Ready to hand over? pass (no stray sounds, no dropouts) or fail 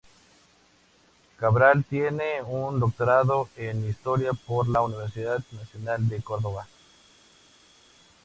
pass